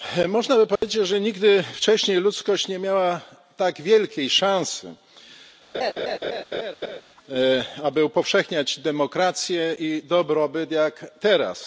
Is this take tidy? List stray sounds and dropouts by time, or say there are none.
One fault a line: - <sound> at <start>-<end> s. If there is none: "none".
- dropout at 0.8-0.8 s
- laugh at 5.7-7.0 s